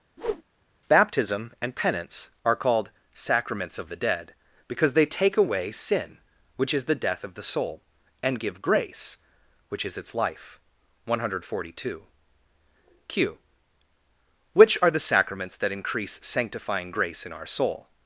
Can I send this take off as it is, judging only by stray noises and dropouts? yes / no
no